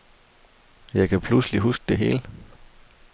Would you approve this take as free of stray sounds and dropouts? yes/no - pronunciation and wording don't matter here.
yes